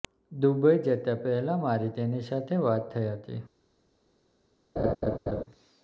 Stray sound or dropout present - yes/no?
yes